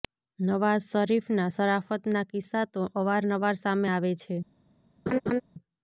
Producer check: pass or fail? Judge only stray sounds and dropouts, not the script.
fail